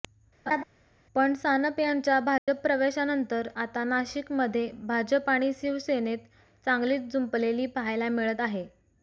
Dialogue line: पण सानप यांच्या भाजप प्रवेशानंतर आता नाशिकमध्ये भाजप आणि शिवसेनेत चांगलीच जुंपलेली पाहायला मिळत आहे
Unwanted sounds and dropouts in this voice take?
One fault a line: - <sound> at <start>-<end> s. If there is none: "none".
- laugh at 0.5-0.6 s
- dropout at 2.4-2.5 s